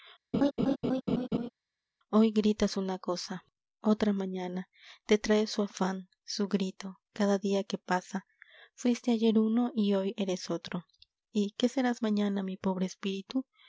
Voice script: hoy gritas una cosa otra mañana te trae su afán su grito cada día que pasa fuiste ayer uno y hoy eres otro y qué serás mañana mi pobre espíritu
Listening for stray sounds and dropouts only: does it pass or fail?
fail